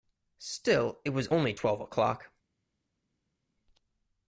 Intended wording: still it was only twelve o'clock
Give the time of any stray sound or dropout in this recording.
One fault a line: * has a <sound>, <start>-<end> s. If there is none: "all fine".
all fine